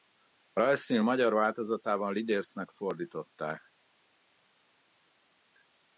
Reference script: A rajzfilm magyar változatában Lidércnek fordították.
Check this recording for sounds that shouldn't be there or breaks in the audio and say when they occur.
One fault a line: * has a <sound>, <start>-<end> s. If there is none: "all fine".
all fine